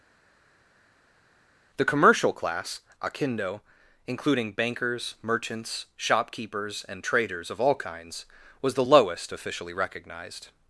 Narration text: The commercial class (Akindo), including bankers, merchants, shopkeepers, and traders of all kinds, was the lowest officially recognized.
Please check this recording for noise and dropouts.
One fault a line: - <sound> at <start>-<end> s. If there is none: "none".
none